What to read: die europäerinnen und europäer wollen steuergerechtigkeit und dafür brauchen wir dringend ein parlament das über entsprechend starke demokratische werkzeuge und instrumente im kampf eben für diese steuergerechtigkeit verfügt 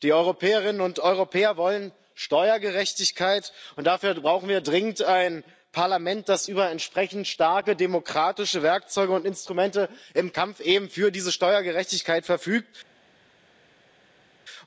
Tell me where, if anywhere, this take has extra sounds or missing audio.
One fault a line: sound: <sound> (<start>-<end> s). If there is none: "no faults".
no faults